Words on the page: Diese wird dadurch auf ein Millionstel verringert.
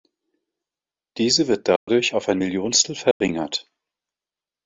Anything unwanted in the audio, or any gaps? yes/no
yes